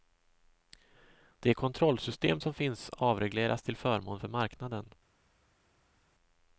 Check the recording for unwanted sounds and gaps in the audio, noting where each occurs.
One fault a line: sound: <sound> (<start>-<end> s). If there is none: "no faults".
no faults